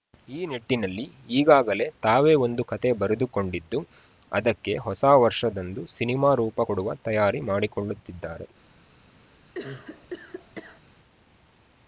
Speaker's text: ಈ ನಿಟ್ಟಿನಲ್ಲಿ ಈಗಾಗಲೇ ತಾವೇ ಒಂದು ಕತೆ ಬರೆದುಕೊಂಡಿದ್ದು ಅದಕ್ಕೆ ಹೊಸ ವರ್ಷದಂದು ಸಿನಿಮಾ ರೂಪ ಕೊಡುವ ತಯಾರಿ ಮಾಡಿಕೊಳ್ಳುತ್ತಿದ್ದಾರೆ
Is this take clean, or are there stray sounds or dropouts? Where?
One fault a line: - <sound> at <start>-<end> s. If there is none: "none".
- cough at 9.5-10.8 s